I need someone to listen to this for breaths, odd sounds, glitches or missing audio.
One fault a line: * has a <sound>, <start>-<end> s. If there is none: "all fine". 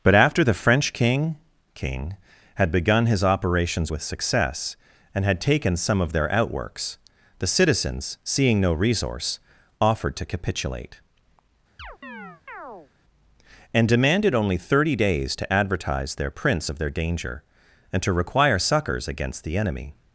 * has a chirp, 11.8-12.9 s